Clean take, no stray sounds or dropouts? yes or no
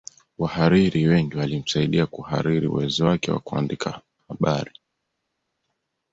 yes